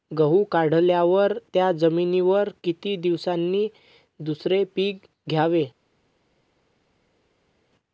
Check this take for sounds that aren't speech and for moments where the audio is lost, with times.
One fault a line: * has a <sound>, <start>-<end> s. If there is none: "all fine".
all fine